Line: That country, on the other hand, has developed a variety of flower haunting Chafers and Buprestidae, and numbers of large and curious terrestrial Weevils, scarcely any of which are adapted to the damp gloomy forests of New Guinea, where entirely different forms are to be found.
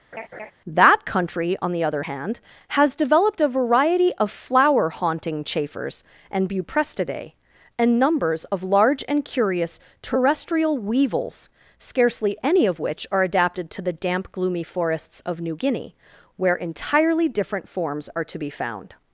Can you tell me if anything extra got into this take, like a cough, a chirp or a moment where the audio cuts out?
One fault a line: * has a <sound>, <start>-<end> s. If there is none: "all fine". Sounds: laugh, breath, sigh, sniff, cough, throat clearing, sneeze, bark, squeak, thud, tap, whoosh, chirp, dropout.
* has a laugh, 0.1-0.5 s